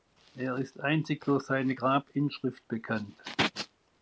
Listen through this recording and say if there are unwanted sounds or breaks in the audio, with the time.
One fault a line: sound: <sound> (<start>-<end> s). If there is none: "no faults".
no faults